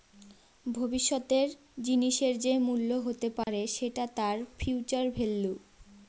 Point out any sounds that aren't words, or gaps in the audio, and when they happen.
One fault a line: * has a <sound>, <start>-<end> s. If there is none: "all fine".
* has a dropout, 3.4-3.5 s